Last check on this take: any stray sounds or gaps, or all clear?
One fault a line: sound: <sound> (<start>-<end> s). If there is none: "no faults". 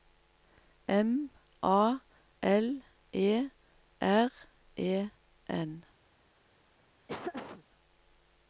sound: laugh (7.1-7.6 s)